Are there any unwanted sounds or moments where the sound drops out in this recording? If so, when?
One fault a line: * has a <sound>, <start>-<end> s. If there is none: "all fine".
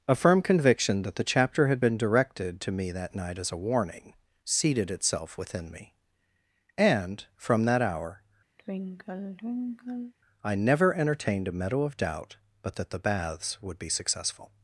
* has a sigh, 8.6-10.1 s